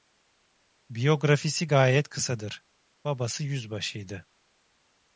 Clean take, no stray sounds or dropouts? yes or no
yes